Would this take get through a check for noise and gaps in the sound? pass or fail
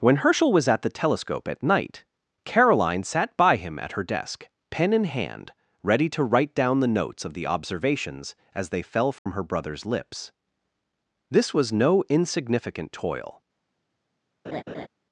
fail